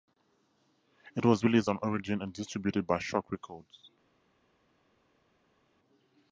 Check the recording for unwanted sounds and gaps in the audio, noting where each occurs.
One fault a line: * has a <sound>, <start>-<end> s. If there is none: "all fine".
all fine